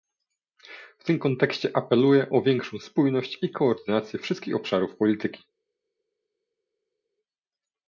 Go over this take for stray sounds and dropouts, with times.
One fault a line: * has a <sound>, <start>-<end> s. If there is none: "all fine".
all fine